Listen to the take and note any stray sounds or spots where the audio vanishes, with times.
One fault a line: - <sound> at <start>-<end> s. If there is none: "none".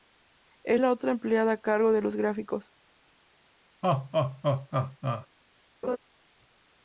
- laugh at 3.8-5.3 s
- laugh at 5.8-6.0 s